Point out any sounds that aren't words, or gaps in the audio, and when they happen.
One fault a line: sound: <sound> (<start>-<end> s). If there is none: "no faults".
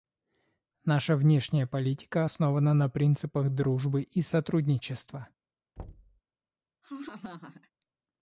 sound: thud (5.8-6.2 s)
sound: laugh (6.8-7.7 s)